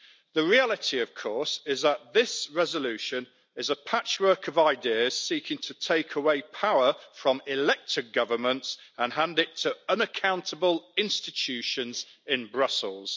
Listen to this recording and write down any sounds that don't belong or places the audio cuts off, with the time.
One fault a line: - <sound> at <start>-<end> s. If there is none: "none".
none